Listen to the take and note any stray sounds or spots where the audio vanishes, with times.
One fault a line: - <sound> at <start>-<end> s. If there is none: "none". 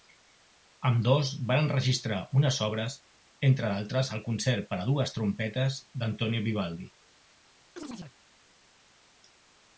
- chirp at 7.8-8.2 s